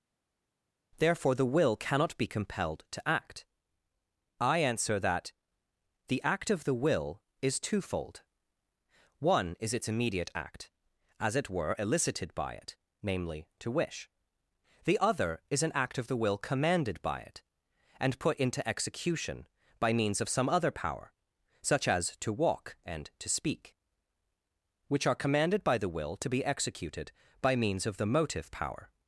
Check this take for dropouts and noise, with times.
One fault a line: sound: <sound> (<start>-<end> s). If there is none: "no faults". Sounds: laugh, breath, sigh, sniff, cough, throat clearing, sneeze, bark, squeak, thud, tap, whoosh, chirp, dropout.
no faults